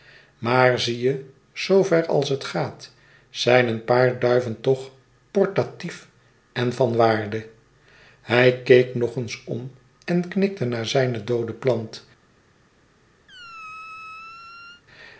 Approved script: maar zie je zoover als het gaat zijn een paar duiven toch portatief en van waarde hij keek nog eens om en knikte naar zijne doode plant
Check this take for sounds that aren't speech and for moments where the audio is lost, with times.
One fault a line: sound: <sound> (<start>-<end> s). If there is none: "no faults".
sound: squeak (13.3-14.8 s)